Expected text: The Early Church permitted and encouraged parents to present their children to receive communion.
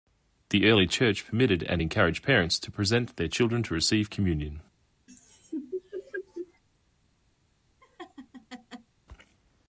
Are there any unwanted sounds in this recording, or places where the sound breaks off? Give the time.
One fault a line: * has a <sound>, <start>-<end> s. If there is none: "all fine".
* has a laugh, 5.1-6.6 s
* has a laugh, 7.8-8.9 s